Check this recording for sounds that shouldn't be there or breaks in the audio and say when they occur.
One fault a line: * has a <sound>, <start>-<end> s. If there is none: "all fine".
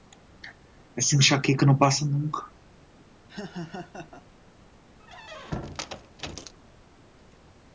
* has a laugh, 3.3-4.3 s
* has a squeak, 5.0-6.5 s